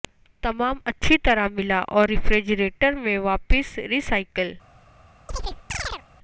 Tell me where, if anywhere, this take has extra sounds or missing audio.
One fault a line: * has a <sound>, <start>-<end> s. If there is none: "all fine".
* has a chirp, 5.3-6.0 s